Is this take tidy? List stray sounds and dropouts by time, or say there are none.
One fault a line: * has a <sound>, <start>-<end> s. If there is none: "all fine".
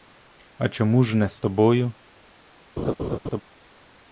* has a laugh, 2.8-3.4 s